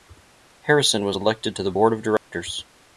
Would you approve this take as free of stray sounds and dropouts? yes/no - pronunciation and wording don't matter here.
no